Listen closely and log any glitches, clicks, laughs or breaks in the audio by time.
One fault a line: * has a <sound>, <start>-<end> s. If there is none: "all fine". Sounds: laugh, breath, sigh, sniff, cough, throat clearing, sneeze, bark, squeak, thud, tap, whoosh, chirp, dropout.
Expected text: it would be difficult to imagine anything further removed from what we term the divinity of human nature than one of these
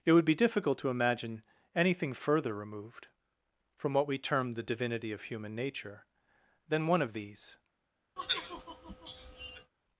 * has a sigh, 8.2-9.7 s